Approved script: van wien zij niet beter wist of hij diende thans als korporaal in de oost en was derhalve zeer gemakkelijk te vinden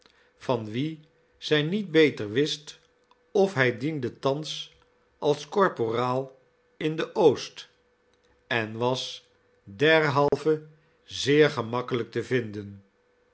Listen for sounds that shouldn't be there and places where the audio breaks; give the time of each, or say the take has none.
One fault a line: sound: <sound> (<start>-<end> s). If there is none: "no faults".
sound: dropout (10.3-10.3 s)